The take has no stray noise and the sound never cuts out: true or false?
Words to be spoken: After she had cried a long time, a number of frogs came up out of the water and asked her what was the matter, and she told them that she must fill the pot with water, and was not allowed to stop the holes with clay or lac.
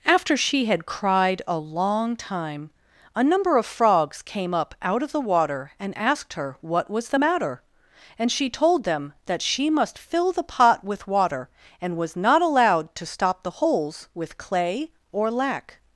true